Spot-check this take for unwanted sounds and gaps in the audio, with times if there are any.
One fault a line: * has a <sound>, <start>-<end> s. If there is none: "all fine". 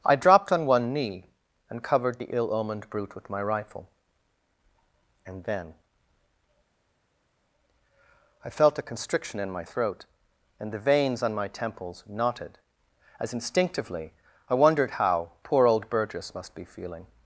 all fine